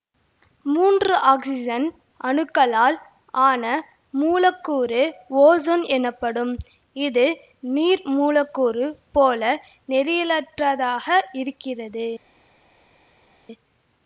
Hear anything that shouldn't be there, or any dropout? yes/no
no